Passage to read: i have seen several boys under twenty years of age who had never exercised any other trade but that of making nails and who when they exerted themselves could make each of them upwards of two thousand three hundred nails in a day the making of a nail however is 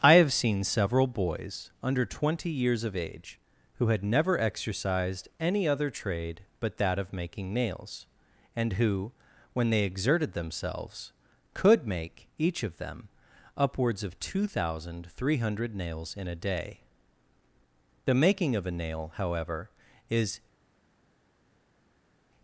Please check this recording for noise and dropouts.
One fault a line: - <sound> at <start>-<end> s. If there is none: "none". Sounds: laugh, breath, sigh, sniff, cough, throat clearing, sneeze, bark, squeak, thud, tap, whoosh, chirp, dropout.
none